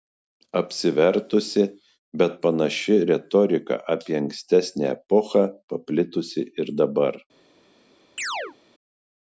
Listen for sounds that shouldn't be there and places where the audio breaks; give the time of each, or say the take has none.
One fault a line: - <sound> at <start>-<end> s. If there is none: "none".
- chirp at 8.2-8.6 s